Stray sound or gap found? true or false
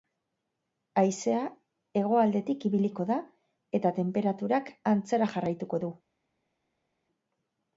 false